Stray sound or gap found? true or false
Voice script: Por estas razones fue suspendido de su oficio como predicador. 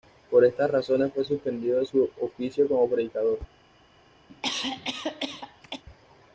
true